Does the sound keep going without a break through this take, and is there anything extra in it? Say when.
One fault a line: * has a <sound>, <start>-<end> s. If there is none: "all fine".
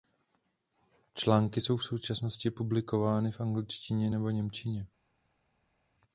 all fine